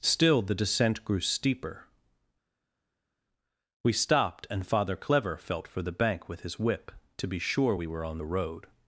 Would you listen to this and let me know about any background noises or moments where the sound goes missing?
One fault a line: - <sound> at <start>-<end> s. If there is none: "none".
none